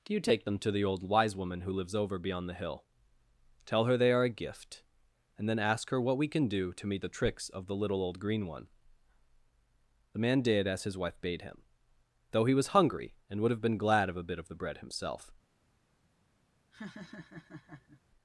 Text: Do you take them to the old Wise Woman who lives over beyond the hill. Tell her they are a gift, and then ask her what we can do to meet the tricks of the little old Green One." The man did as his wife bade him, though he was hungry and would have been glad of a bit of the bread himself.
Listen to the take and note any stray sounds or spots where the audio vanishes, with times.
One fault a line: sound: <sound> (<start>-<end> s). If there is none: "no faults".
sound: laugh (16.7-18.0 s)